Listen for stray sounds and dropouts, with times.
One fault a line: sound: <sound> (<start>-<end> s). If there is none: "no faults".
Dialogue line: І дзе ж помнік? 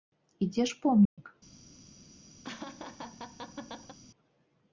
sound: dropout (1.1-1.2 s)
sound: laugh (2.4-4.0 s)